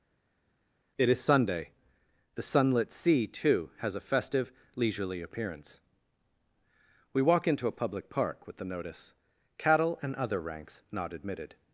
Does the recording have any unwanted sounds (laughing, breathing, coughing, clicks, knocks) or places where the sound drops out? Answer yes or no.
no